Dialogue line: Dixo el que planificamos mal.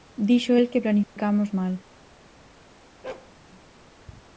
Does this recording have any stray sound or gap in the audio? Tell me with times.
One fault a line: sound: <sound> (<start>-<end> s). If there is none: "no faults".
sound: dropout (1.0-1.2 s)
sound: bark (3.0-3.3 s)